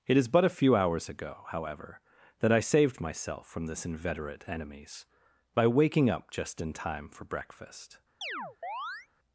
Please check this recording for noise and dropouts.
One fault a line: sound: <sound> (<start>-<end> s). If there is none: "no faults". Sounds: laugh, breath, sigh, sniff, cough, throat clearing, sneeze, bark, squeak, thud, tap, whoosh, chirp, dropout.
sound: chirp (8.2-9.1 s)